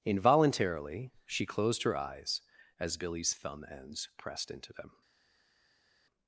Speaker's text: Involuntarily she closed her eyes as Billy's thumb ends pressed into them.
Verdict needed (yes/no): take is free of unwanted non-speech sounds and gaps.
yes